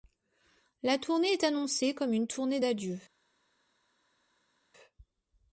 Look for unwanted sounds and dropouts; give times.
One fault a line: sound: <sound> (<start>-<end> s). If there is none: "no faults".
no faults